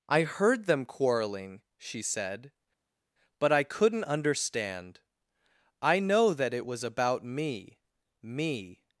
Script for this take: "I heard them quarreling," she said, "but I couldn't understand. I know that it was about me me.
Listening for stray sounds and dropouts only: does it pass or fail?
pass